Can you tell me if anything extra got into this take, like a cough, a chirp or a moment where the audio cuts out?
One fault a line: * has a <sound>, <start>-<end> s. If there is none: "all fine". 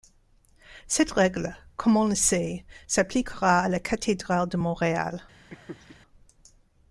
* has a laugh, 5.5-6.0 s